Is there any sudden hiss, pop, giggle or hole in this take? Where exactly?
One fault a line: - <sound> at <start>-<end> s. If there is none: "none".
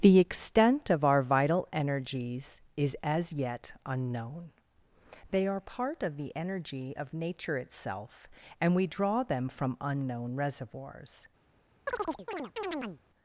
- chirp at 11.9-13.0 s